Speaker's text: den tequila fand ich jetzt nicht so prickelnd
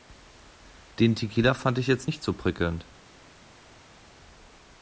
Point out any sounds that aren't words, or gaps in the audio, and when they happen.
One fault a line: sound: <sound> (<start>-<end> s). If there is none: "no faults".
no faults